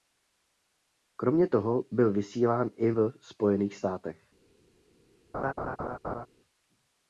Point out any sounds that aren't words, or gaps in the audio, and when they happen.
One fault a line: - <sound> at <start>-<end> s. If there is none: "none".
- laugh at 5.3-6.3 s